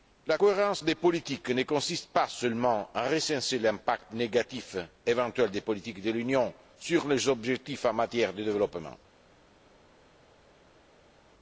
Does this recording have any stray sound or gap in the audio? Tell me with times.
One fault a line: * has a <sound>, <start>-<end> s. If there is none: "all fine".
all fine